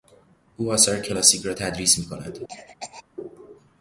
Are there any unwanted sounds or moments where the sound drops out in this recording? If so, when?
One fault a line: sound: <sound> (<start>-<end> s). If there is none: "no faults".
sound: cough (2.5-3.0 s)